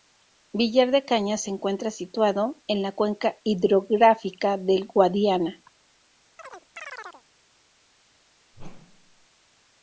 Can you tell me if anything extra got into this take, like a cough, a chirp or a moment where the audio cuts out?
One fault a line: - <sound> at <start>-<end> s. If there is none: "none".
- chirp at 6.4-7.2 s
- whoosh at 8.5-9.3 s